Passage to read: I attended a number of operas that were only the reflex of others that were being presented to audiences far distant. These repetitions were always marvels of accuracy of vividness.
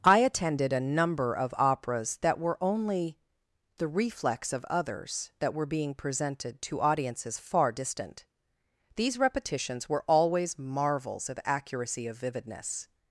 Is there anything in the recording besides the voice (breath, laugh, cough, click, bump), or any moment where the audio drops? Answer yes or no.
no